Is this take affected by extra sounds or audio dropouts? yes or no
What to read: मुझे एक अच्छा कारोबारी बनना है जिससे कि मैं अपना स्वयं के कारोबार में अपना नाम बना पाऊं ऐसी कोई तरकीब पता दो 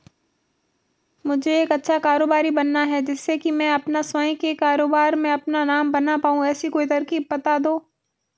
no